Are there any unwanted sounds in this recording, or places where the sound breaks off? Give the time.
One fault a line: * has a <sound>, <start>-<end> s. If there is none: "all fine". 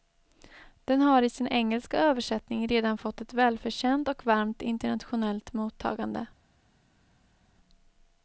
all fine